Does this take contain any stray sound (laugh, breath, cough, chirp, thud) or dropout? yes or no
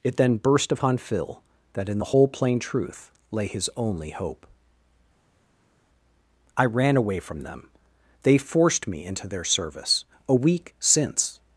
no